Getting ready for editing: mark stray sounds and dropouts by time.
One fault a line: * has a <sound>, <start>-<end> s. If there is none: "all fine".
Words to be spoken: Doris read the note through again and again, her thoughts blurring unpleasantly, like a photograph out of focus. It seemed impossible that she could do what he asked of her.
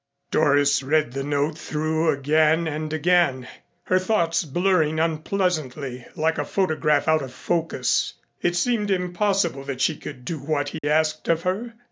* has a dropout, 10.8-10.8 s